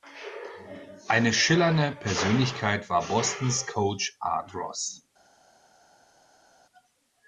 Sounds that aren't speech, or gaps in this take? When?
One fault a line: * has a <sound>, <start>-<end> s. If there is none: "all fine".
all fine